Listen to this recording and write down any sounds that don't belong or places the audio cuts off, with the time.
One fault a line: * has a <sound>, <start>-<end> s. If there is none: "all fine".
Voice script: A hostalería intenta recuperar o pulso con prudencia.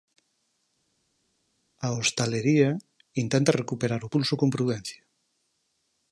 all fine